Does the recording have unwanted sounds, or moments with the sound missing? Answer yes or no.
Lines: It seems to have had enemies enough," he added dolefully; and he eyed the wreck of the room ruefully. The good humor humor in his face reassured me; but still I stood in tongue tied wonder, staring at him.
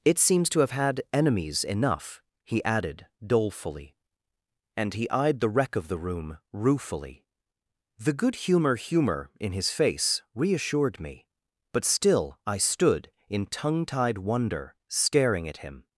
no